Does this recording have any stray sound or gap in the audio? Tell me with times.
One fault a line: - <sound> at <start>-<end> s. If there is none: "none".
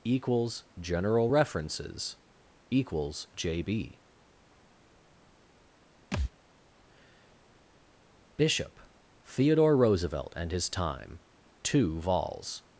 - thud at 6.1-6.3 s